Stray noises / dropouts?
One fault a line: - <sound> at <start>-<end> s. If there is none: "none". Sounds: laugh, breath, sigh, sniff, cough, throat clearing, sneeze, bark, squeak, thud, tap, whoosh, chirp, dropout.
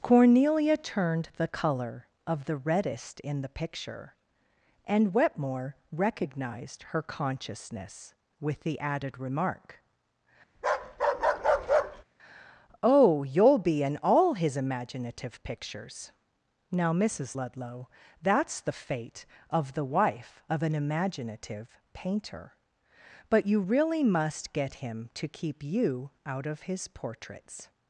- bark at 10.6-12.0 s